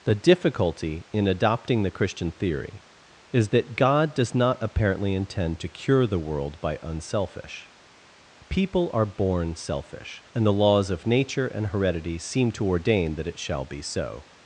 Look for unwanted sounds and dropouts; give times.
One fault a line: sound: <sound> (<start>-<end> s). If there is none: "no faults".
no faults